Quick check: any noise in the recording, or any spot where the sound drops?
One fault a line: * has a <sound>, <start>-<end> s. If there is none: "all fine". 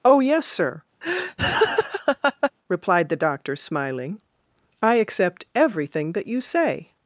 * has a laugh, 1.0-2.5 s